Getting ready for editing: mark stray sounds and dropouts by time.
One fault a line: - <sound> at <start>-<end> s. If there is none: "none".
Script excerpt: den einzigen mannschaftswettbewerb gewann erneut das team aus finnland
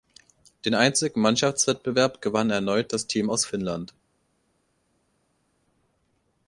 none